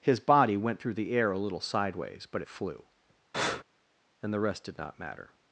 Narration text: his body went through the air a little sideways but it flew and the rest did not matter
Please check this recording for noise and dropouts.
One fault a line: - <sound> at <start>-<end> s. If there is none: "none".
- breath at 3.3-3.6 s